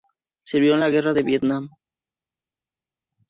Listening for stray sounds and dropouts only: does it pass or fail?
pass